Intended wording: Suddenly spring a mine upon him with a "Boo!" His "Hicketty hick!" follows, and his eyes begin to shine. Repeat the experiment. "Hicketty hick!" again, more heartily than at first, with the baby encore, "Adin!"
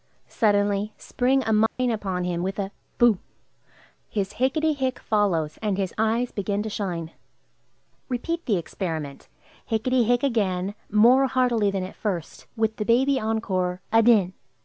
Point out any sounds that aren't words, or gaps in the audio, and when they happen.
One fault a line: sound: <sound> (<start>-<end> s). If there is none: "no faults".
sound: dropout (1.7-1.8 s)